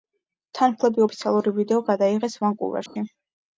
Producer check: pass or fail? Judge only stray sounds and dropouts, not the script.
fail